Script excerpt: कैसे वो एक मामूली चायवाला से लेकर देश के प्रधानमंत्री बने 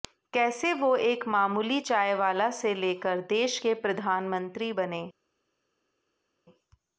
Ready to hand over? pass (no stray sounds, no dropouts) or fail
pass